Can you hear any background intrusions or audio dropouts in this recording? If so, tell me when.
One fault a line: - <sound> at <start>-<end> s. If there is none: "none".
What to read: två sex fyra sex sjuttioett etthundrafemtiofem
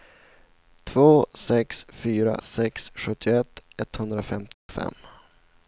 - dropout at 4.5-4.7 s